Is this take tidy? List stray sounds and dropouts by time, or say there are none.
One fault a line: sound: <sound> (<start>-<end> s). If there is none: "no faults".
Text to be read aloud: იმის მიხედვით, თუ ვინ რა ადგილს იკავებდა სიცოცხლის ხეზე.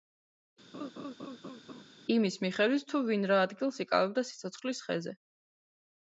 sound: laugh (0.7-1.8 s)